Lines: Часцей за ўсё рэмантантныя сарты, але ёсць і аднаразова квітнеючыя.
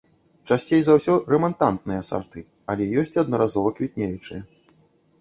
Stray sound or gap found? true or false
false